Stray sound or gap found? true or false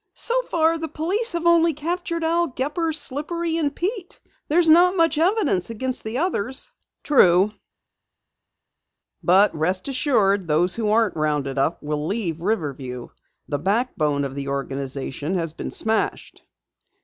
false